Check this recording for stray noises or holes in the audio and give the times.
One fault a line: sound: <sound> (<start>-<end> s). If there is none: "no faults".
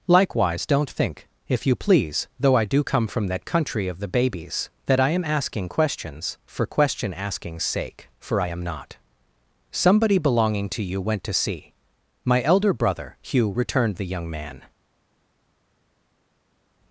no faults